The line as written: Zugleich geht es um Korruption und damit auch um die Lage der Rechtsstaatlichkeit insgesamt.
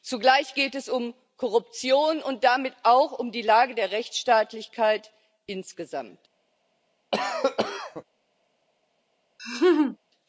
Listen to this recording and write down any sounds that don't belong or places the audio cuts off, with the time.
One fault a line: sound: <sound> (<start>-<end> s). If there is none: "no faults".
sound: cough (7.1-8.0 s)
sound: laugh (9.4-10.0 s)